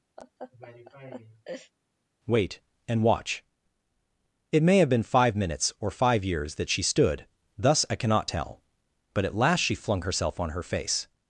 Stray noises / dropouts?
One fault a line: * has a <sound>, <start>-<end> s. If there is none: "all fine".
* has a laugh, 0.2-1.7 s